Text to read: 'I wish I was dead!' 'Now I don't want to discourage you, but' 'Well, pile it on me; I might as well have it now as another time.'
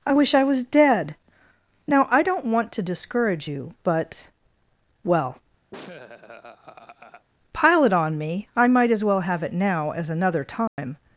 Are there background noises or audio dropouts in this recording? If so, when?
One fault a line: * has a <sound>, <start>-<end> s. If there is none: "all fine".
* has a laugh, 5.7-7.3 s
* has a dropout, 10.7-10.8 s